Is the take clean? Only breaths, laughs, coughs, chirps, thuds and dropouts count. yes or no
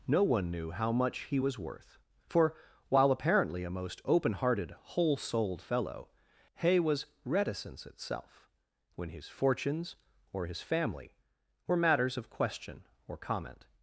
yes